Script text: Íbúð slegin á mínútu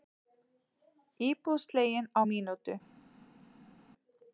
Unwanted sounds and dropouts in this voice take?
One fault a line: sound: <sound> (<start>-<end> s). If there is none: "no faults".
no faults